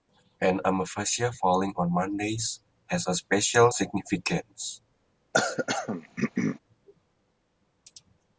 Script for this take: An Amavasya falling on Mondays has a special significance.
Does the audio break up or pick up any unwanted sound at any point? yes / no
yes